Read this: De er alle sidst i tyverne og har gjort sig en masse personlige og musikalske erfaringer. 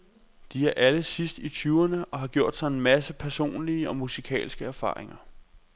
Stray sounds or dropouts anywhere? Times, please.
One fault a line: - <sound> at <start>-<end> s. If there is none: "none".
none